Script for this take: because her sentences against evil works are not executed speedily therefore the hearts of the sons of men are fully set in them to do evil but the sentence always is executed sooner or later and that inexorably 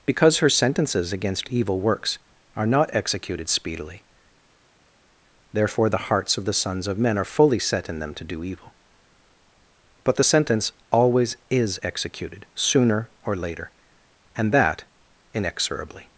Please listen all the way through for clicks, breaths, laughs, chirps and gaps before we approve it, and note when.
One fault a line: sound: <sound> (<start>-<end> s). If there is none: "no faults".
no faults